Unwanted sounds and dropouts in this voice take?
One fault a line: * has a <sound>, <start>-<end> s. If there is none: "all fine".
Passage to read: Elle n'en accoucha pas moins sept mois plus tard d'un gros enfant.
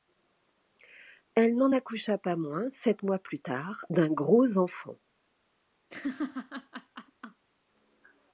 * has a laugh, 5.9-7.5 s